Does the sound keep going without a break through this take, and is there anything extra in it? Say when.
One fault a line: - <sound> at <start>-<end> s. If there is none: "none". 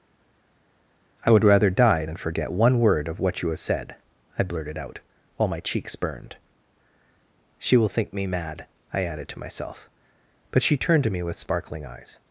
none